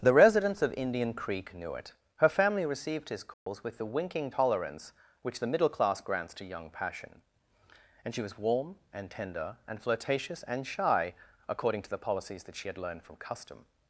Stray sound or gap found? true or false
true